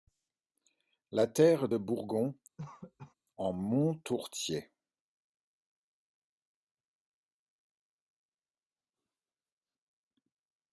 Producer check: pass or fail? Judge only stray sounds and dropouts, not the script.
fail